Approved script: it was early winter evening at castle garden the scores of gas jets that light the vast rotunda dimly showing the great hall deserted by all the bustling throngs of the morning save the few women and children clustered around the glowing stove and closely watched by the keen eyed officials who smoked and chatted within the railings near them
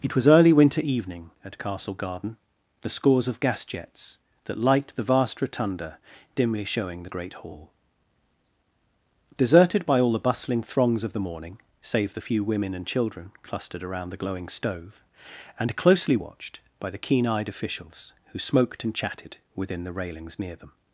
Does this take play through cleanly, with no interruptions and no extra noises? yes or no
yes